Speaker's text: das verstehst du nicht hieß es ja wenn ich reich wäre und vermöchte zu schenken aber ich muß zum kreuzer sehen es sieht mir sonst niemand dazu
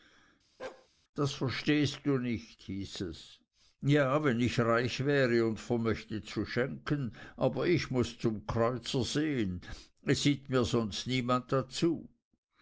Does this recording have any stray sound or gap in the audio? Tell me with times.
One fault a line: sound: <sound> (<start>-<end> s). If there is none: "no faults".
sound: bark (0.6-0.9 s)